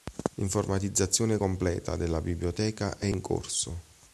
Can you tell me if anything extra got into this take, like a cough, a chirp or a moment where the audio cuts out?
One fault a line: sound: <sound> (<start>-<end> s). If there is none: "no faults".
no faults